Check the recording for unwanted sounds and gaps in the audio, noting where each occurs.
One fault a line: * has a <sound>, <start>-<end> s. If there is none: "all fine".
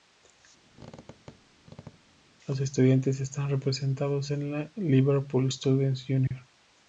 * has a squeak, 0.7-2.2 s
* has a dropout, 6.3-6.3 s